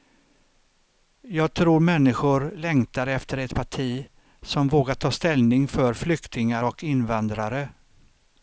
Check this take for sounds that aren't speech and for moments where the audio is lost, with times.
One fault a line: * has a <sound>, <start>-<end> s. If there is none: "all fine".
all fine